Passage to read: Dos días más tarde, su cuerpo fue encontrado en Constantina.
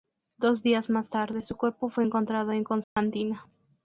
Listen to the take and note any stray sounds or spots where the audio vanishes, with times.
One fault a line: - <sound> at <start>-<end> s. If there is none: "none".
- dropout at 2.8-3.0 s